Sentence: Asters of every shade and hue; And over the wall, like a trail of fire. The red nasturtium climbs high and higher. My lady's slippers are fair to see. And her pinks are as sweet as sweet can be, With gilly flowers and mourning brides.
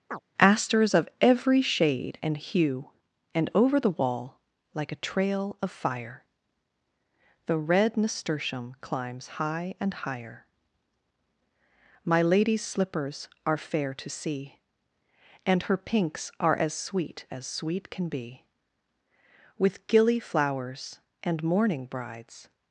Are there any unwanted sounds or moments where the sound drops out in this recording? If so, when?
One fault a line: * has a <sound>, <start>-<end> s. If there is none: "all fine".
* has a chirp, 0.1-0.2 s